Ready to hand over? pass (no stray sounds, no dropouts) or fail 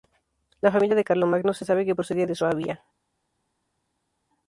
pass